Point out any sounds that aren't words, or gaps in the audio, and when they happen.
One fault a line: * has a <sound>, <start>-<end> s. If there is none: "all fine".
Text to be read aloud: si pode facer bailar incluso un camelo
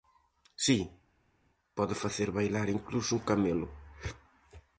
all fine